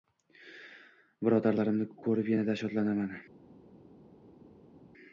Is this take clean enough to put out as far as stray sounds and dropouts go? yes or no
yes